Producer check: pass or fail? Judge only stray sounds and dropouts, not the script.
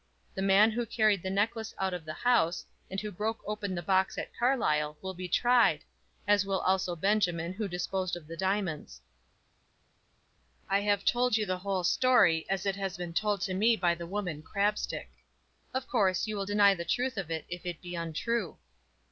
pass